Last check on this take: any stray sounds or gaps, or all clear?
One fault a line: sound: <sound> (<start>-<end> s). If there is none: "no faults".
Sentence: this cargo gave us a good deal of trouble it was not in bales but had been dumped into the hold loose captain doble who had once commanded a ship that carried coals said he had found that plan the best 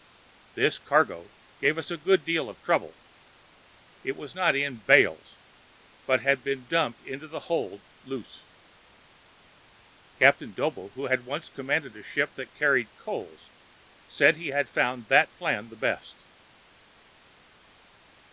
no faults